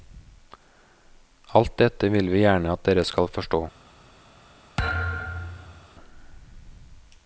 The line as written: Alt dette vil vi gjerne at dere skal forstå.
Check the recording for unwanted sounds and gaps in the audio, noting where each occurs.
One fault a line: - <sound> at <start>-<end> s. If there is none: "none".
- thud at 4.8-5.9 s